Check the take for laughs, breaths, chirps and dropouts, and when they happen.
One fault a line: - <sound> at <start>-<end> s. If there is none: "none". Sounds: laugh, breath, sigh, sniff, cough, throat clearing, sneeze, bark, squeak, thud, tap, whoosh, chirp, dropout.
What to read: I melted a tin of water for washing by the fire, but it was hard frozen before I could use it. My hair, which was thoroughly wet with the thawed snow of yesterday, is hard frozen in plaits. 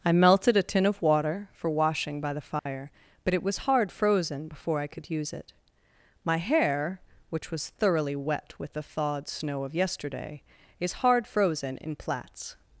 - dropout at 2.6-2.7 s